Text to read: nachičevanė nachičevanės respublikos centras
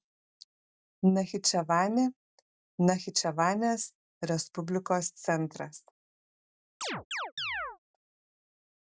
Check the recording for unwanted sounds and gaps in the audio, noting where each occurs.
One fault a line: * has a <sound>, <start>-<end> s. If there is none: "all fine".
* has a chirp, 6.8-7.8 s